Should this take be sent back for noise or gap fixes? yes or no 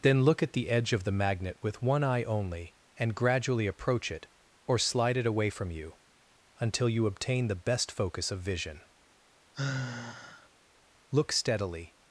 yes